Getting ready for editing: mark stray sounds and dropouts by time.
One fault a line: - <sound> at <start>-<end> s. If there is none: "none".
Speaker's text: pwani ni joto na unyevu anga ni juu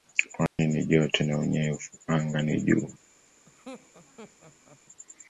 - dropout at 0.5-0.6 s
- laugh at 3.5-4.8 s